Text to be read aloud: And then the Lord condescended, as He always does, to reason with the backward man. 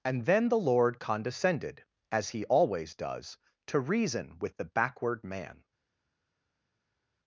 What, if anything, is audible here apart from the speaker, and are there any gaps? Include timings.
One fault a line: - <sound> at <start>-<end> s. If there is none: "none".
none